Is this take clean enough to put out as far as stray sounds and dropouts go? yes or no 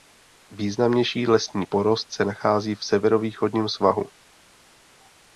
yes